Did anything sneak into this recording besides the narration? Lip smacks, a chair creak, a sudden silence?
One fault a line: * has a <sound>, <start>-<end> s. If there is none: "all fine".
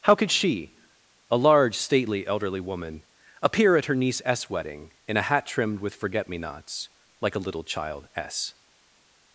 all fine